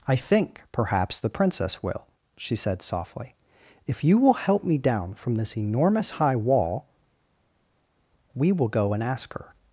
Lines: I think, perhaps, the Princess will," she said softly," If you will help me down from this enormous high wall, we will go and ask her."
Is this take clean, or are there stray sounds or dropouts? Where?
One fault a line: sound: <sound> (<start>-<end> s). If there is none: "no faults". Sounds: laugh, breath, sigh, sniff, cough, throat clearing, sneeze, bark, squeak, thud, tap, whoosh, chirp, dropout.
no faults